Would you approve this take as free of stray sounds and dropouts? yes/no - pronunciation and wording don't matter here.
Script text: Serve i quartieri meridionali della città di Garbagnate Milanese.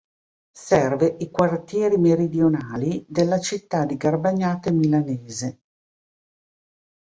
yes